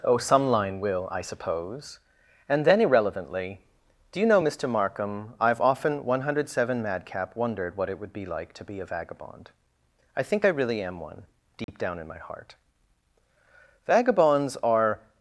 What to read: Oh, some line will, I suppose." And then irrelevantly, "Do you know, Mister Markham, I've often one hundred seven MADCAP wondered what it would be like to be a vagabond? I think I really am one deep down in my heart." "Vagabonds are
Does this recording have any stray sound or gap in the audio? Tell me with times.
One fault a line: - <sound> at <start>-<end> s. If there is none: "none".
- dropout at 11.6-11.7 s